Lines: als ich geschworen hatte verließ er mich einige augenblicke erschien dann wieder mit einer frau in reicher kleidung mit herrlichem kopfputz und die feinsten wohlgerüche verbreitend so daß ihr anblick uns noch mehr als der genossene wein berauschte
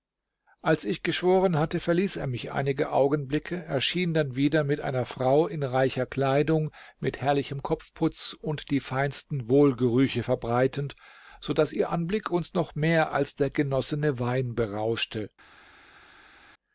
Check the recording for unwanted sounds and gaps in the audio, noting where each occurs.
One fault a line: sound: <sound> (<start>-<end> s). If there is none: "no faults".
no faults